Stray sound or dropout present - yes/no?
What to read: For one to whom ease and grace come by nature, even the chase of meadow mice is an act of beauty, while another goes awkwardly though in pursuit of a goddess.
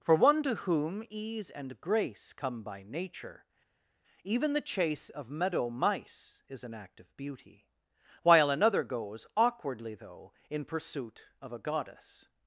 no